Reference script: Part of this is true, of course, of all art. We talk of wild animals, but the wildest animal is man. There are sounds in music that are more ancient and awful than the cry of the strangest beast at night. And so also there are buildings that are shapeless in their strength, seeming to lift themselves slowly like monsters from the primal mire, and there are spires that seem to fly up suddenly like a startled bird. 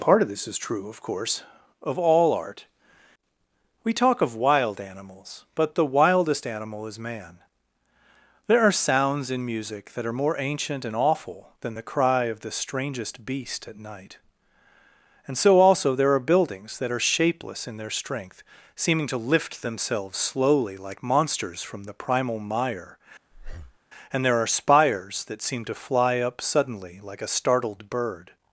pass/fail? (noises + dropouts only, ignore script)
fail